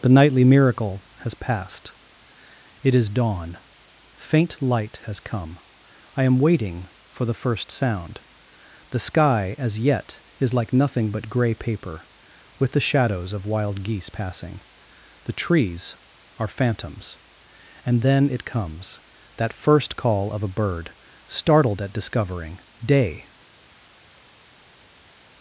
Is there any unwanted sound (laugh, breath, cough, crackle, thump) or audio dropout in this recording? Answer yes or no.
no